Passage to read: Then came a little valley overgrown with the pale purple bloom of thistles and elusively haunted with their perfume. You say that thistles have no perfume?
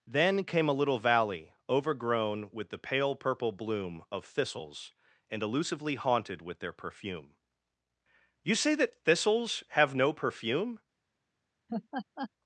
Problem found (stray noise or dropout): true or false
true